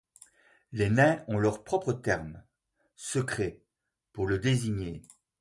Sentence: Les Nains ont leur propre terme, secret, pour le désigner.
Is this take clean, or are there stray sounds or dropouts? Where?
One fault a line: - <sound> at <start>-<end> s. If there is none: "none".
none